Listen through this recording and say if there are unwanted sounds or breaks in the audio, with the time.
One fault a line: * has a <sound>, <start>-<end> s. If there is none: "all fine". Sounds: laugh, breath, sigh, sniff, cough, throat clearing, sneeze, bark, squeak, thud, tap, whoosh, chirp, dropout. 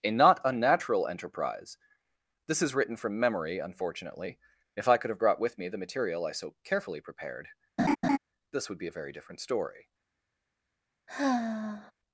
* has a laugh, 7.8-8.2 s
* has a sigh, 11.1-11.9 s